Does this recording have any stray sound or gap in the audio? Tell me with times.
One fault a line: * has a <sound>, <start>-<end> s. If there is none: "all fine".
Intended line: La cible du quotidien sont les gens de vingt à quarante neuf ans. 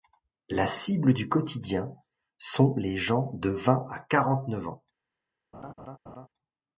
* has a laugh, 5.5-6.3 s